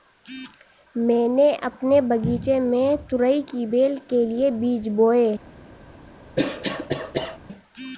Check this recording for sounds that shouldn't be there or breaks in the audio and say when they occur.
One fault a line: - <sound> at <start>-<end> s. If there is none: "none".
- cough at 6.4-7.4 s